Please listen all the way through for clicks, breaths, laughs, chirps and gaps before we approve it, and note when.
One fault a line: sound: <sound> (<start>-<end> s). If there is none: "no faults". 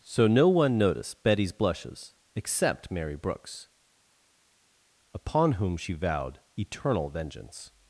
no faults